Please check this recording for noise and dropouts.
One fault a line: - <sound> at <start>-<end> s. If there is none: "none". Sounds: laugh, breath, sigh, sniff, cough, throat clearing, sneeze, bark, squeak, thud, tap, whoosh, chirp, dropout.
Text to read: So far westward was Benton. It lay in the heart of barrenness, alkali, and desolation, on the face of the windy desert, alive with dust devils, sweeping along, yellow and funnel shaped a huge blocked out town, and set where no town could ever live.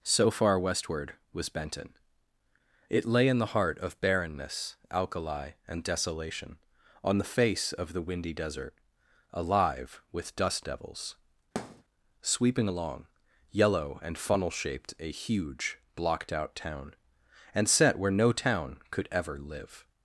- thud at 11.6-11.8 s